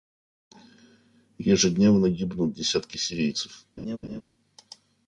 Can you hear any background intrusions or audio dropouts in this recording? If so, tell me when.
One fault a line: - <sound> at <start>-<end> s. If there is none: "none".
- laugh at 3.8-4.2 s